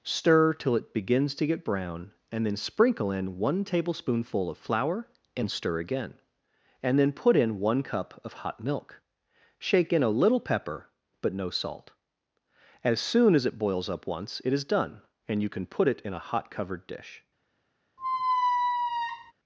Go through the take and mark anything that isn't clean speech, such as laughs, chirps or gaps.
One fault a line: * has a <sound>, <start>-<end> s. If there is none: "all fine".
* has a squeak, 18.0-19.3 s